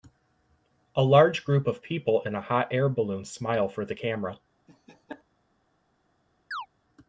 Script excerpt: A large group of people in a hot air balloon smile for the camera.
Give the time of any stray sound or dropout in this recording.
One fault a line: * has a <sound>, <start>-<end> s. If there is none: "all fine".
* has a laugh, 4.7-5.2 s
* has a chirp, 6.5-6.7 s